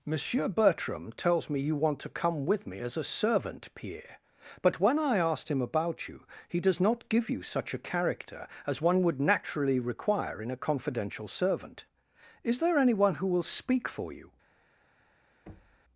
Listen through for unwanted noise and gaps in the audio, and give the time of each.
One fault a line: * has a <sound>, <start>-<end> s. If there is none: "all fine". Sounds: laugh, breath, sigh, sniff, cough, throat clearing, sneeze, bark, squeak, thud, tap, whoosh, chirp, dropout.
* has a thud, 15.5-15.8 s